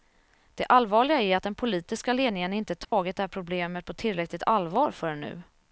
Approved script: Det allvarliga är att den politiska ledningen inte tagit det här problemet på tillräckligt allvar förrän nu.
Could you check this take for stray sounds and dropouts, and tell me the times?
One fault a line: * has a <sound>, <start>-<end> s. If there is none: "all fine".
* has a dropout, 2.8-2.9 s